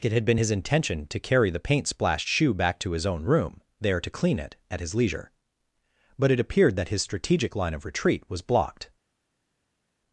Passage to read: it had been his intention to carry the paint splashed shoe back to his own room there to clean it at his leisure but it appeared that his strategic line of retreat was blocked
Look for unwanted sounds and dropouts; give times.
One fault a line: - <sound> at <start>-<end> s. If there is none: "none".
none